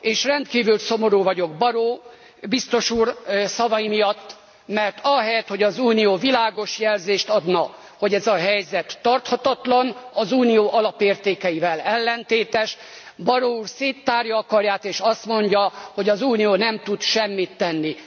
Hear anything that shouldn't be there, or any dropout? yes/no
no